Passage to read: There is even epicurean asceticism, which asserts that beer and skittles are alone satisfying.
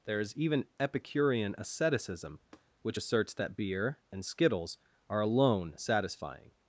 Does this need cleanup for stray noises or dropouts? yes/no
yes